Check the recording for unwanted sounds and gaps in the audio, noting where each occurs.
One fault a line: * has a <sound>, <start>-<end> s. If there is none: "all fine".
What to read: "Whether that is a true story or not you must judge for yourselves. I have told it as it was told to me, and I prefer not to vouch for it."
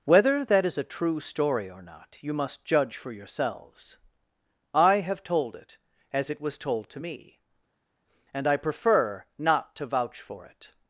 all fine